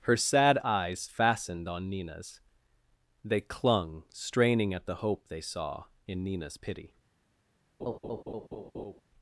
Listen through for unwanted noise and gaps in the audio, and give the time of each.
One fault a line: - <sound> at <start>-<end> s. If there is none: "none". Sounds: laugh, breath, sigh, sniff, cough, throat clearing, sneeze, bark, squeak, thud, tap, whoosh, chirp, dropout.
- laugh at 7.8-9.0 s